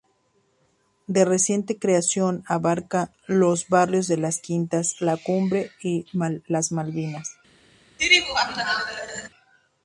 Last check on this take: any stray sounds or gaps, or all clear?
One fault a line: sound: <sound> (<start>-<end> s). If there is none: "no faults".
sound: laugh (8.0-9.3 s)